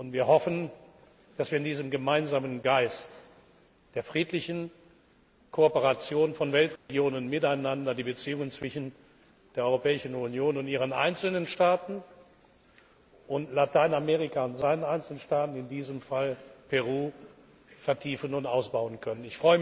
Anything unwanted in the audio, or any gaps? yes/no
yes